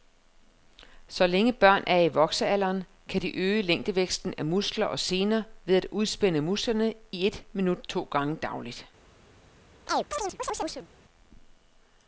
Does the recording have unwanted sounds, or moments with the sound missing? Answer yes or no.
yes